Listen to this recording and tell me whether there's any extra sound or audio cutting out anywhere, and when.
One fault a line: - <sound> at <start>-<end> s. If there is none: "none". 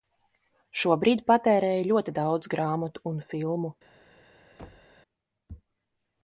- thud at 4.6-5.0 s